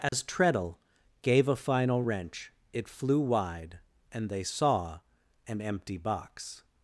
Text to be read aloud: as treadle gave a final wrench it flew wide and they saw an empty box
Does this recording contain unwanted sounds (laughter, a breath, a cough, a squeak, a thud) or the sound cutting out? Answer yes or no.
yes